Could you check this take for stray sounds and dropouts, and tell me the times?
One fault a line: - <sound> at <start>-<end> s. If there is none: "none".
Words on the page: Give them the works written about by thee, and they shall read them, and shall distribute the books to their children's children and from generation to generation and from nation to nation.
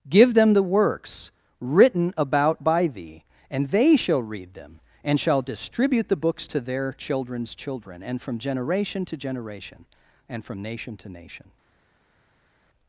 none